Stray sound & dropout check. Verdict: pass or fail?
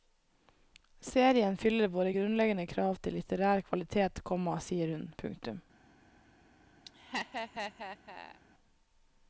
fail